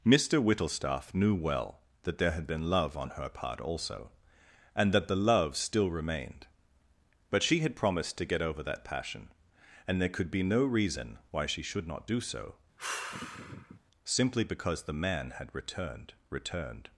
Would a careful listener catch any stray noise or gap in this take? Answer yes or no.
yes